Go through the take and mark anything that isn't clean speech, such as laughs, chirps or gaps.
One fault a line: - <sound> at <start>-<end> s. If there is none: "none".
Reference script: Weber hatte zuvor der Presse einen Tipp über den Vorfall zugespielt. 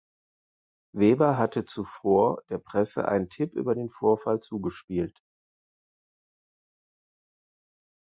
none